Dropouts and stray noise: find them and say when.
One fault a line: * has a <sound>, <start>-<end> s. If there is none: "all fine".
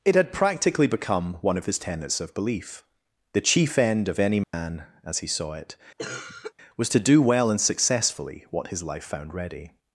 * has a dropout, 4.4-4.5 s
* has a cough, 6.0-6.5 s